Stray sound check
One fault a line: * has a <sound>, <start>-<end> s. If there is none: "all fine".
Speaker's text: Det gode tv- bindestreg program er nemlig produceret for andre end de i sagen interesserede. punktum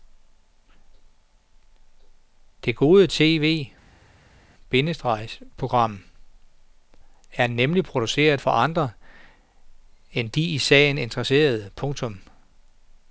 all fine